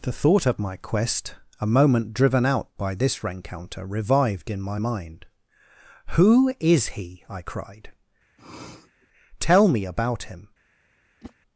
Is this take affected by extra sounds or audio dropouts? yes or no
yes